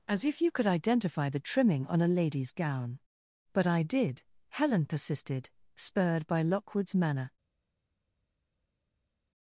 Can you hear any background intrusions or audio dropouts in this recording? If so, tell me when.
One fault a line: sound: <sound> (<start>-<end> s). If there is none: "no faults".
no faults